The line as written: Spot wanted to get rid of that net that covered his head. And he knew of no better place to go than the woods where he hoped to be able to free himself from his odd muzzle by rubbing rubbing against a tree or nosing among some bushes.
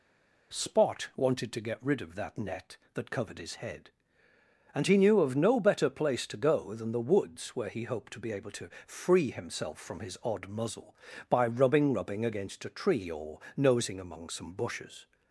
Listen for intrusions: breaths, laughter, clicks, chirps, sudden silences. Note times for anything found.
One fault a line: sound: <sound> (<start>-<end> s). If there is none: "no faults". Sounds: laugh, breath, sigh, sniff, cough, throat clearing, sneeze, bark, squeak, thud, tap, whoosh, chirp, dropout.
no faults